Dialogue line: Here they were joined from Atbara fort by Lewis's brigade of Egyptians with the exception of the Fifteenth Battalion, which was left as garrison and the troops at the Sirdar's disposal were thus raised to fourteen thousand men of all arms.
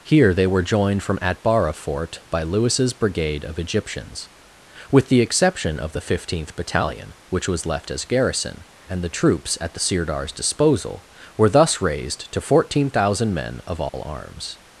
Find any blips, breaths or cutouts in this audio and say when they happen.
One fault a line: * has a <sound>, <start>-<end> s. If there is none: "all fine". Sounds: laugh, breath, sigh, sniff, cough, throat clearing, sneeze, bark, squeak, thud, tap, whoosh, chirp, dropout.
* has a dropout, 13.9-13.9 s